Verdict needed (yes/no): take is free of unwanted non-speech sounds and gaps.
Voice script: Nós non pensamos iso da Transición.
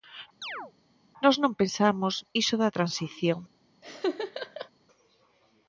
no